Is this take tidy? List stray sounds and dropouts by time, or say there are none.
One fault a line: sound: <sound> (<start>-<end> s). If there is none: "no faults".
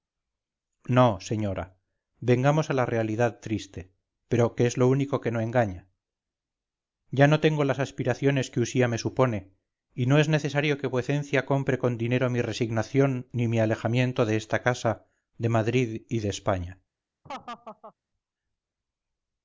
sound: laugh (17.2-17.9 s)